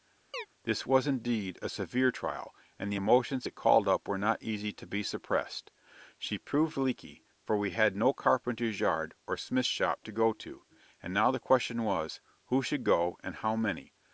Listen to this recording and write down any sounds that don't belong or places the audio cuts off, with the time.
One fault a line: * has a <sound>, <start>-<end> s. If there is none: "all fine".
* has a chirp, 0.3-0.5 s